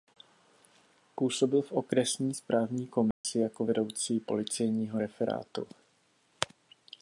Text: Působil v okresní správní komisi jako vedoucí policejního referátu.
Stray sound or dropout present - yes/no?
yes